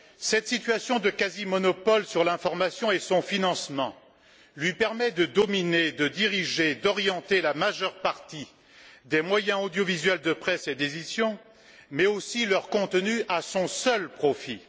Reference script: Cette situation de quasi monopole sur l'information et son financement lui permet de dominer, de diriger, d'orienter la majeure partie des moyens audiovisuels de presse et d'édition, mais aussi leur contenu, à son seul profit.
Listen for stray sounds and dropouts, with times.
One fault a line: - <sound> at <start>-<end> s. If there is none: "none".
none